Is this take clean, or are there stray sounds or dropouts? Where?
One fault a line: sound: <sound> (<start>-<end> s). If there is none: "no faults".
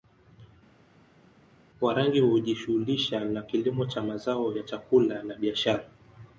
no faults